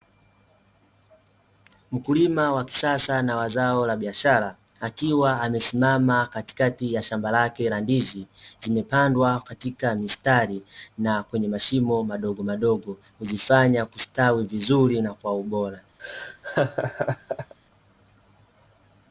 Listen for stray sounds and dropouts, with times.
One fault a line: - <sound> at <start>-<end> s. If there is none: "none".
- laugh at 16.0-17.5 s